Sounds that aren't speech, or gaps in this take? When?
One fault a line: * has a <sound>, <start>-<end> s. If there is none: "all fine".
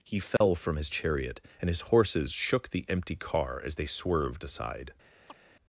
* has a dropout, 0.4-0.4 s
* has a chirp, 5.3-5.4 s